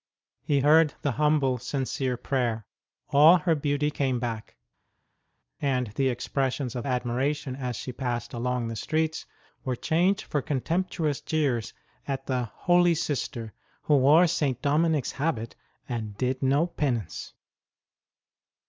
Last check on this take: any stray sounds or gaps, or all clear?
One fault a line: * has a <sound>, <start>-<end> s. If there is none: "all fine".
all fine